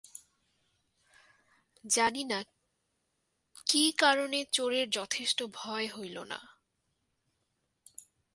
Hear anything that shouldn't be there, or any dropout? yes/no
no